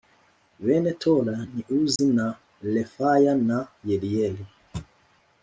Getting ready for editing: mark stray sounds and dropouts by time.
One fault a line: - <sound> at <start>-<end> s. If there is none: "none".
- dropout at 2.0-2.0 s